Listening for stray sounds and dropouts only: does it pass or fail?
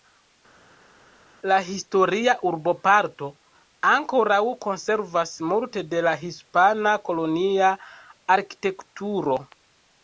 pass